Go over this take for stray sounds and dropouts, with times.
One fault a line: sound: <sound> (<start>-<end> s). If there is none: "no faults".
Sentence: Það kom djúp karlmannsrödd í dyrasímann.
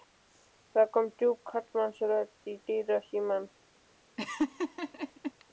sound: laugh (4.2-5.3 s)